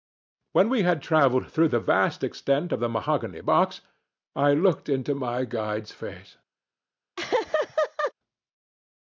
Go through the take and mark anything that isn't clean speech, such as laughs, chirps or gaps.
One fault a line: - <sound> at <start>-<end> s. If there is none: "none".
- laugh at 7.2-8.1 s